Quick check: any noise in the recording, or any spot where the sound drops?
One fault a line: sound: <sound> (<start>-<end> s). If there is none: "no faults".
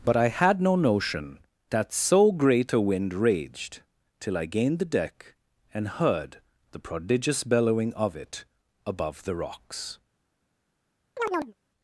sound: chirp (11.2-11.5 s)